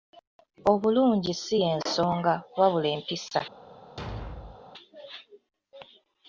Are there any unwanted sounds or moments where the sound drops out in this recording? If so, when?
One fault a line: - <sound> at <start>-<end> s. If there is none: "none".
- thud at 4.0-4.6 s